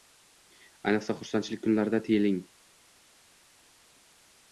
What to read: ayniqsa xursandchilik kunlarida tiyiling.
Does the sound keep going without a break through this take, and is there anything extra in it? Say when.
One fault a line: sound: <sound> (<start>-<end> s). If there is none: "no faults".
no faults